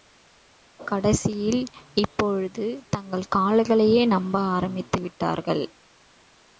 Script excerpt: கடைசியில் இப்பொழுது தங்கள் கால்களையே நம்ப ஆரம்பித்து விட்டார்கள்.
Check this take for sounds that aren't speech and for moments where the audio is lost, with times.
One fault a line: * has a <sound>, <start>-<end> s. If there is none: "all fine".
all fine